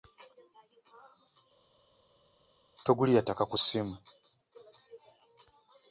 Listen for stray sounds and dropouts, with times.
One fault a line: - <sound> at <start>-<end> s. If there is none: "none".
none